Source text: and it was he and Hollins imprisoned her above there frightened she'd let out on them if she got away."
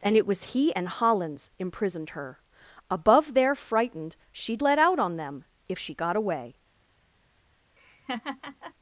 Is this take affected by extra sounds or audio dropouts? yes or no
yes